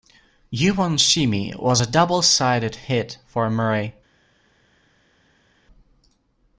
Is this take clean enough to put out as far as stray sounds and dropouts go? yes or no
yes